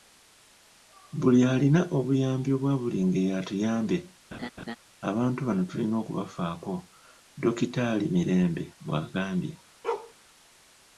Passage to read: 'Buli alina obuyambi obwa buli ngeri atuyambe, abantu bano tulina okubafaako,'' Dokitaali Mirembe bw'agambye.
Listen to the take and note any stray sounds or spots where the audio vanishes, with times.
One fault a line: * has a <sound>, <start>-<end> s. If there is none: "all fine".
* has a laugh, 4.3-4.8 s
* has a bark, 9.8-10.1 s